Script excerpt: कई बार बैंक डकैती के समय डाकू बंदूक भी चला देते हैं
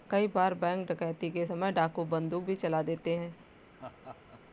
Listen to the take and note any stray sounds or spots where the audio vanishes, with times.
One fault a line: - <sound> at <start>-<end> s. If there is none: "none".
- laugh at 3.7-4.4 s